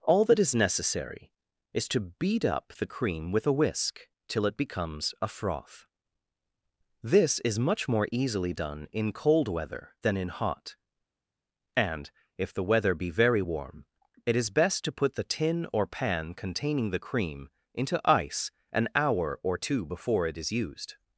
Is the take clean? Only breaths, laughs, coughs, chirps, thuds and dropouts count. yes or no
yes